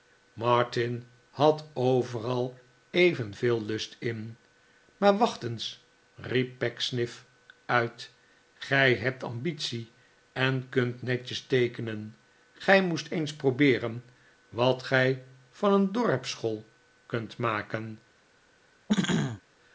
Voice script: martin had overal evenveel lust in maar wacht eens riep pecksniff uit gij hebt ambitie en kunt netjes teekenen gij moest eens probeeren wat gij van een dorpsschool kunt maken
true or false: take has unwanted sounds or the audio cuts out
true